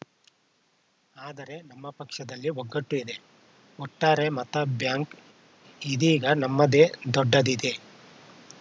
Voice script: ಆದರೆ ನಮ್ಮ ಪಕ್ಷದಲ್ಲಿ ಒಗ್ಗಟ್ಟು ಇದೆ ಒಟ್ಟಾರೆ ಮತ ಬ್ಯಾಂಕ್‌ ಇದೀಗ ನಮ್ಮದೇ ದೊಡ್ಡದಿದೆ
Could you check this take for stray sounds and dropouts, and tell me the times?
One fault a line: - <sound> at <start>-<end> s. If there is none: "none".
none